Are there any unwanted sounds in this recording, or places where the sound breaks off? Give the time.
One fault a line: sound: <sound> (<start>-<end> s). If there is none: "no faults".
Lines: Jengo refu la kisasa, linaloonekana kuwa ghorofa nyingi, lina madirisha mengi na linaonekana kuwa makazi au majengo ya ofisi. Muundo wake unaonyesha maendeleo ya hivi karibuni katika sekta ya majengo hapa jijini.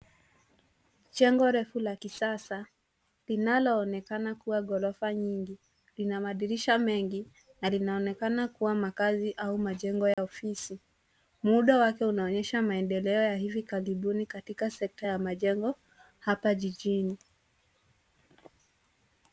sound: dropout (10.1-10.2 s)